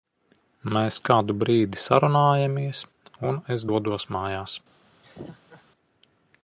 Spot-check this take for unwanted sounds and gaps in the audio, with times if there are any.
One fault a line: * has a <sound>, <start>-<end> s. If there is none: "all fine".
* has a laugh, 5.0-5.6 s